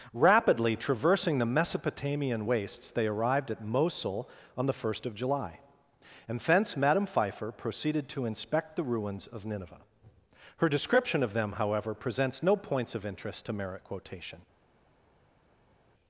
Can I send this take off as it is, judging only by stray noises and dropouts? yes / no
yes